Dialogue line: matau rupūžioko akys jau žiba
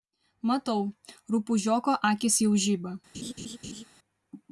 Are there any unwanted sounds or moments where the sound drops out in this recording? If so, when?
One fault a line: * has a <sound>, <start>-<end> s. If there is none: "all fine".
* has a laugh, 3.1-3.8 s